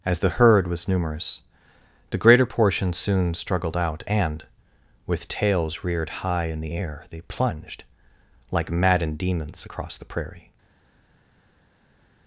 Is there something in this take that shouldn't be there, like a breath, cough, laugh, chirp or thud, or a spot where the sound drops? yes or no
no